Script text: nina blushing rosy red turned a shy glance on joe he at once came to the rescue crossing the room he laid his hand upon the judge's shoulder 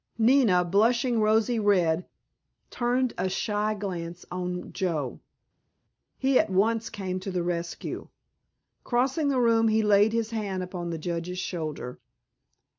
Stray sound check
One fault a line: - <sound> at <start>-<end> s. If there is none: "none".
none